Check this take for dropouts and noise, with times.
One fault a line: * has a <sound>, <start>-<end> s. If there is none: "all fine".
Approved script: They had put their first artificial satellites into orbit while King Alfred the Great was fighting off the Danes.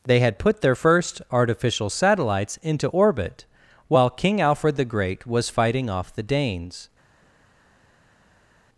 all fine